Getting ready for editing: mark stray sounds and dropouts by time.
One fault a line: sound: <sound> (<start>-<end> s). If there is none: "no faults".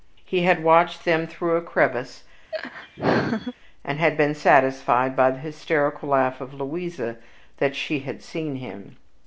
sound: laugh (2.5-3.5 s)